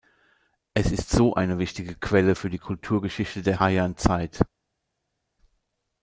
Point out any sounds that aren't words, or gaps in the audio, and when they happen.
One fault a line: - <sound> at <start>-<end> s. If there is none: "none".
none